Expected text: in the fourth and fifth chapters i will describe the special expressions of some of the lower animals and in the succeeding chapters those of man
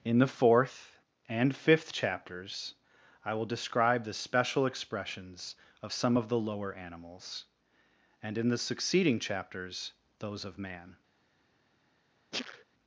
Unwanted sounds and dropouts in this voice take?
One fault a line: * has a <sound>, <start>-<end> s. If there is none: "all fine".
* has a sneeze, 12.3-12.6 s